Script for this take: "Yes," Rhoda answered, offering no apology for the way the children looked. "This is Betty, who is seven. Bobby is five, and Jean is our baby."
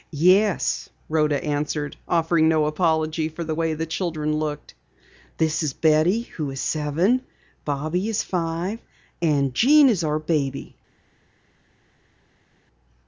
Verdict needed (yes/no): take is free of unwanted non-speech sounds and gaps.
yes